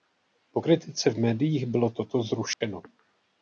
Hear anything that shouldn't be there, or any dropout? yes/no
yes